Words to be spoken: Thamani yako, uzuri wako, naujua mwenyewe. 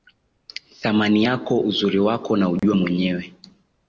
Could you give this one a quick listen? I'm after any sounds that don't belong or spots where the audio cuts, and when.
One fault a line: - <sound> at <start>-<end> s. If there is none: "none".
- dropout at 2.6-2.6 s